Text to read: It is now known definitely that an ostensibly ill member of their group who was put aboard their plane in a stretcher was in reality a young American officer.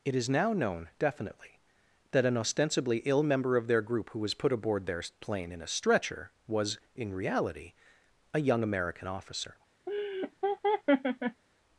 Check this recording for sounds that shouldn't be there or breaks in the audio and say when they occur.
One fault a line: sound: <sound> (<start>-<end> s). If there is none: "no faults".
sound: laugh (9.9-11.4 s)